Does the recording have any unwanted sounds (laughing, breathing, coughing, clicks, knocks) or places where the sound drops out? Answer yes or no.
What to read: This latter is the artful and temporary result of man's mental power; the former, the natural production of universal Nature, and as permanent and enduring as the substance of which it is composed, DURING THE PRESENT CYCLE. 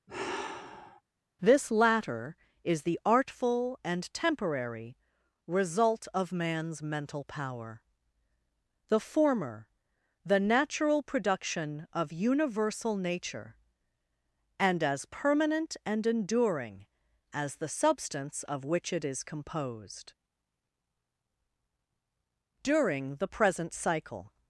yes